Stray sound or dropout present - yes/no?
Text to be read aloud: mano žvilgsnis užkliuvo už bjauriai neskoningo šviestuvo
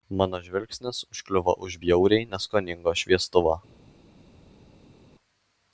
no